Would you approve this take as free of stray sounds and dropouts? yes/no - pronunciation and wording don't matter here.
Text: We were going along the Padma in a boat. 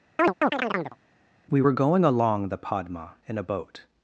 no